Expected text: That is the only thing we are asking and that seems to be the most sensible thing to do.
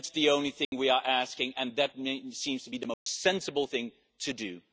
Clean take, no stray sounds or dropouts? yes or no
no